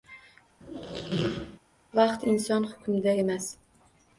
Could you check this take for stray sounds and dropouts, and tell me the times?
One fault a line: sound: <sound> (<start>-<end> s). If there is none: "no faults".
sound: squeak (0.6-1.6 s)